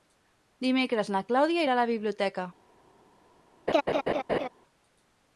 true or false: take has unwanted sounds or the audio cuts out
true